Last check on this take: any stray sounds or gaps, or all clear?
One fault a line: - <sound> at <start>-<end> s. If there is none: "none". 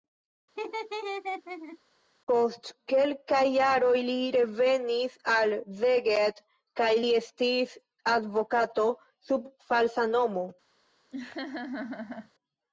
- laugh at 0.6-1.8 s
- laugh at 11.1-12.3 s